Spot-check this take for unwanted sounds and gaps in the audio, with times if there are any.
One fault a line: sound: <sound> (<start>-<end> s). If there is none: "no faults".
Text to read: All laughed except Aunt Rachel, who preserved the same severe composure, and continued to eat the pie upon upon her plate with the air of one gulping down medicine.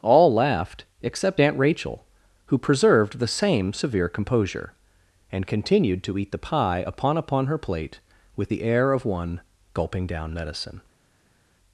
no faults